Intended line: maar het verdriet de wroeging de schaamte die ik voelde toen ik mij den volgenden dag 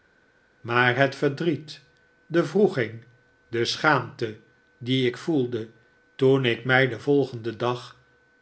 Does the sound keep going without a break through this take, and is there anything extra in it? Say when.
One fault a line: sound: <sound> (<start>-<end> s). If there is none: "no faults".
no faults